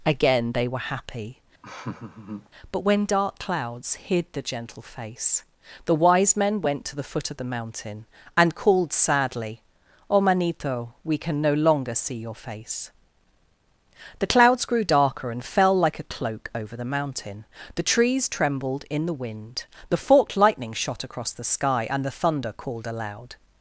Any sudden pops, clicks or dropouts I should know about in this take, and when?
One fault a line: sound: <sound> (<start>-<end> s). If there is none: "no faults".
sound: laugh (1.6-2.5 s)